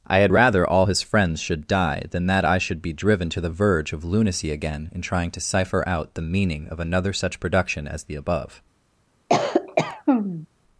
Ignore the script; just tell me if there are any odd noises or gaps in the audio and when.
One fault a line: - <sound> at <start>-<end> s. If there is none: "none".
- cough at 9.3-10.5 s